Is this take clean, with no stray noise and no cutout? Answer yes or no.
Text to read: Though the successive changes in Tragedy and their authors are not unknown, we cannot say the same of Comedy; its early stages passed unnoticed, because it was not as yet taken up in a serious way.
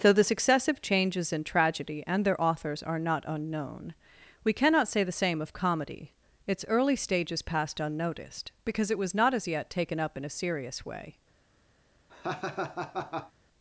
no